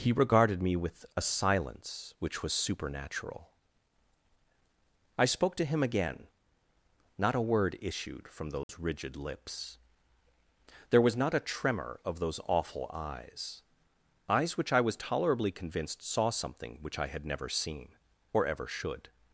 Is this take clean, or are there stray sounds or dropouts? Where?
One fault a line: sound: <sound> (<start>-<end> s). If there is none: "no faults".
sound: dropout (8.6-8.7 s)